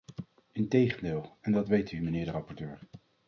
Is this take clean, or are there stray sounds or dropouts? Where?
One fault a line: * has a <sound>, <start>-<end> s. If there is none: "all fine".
all fine